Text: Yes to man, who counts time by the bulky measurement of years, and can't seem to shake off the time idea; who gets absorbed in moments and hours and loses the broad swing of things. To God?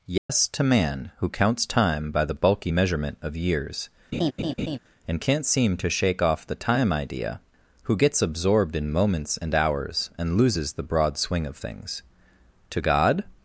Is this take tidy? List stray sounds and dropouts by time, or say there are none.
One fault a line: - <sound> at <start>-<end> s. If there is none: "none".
- dropout at 0.2-0.3 s
- laugh at 4.1-4.8 s